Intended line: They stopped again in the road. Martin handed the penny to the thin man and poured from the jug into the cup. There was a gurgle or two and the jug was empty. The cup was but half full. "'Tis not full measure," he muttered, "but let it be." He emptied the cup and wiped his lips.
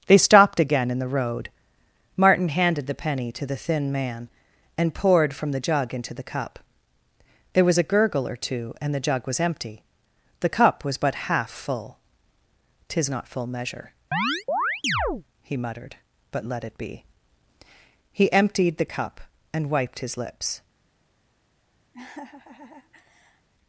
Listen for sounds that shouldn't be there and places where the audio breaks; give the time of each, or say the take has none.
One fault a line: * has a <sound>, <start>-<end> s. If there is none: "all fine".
* has a chirp, 14.1-15.2 s
* has a laugh, 21.9-23.5 s